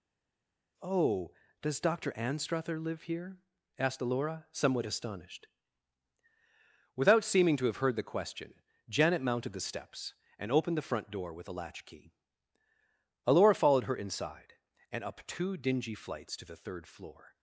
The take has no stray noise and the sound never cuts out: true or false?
true